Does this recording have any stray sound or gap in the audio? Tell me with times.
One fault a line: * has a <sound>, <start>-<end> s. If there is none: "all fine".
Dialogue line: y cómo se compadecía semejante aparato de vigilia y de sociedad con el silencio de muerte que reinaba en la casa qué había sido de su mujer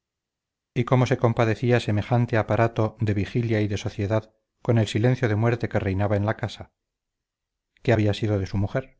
all fine